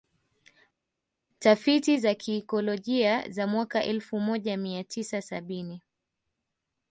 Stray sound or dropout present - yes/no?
no